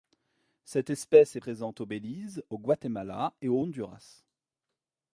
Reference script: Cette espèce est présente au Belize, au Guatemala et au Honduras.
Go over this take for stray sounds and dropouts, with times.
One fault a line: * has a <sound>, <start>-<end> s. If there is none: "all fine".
all fine